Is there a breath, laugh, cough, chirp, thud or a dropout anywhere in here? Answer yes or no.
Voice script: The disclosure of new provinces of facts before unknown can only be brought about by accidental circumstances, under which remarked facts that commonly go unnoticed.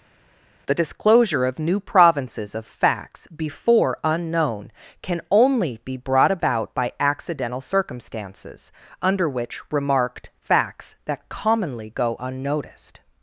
no